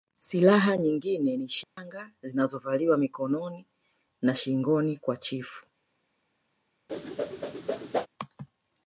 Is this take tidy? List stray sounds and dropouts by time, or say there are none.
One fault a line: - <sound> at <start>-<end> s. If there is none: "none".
- dropout at 1.6-1.8 s
- whoosh at 6.9-8.1 s